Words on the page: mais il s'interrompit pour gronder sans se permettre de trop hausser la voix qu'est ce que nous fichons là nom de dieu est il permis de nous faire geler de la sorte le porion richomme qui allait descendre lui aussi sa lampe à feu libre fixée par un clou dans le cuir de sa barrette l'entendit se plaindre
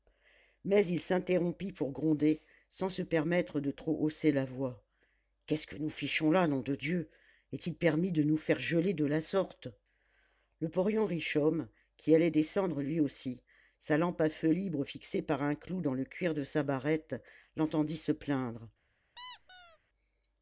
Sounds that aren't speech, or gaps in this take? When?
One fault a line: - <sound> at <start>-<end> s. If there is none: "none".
- squeak at 19.2-19.8 s